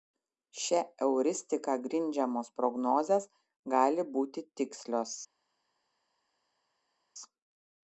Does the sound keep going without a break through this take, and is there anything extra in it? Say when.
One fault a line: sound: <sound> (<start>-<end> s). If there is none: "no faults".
no faults